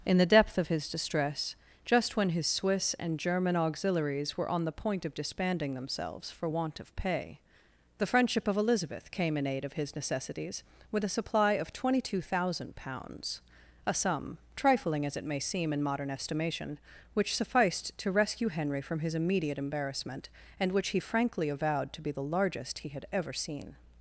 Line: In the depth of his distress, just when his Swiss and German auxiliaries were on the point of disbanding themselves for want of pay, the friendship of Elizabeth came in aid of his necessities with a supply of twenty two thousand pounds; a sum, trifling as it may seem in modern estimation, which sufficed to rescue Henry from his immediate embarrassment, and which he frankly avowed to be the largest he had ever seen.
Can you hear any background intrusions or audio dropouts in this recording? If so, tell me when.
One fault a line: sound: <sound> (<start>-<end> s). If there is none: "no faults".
no faults